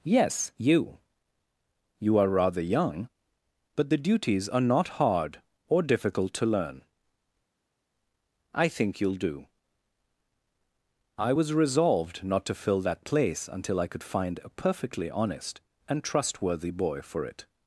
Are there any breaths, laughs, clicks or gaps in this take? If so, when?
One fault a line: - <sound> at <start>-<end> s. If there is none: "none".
none